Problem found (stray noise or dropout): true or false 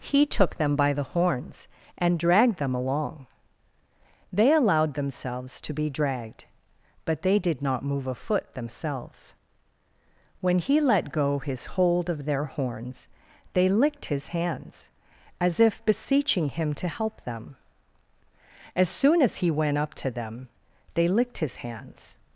false